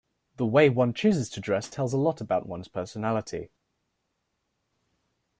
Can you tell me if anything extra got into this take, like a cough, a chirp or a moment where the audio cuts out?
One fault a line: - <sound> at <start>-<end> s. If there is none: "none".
none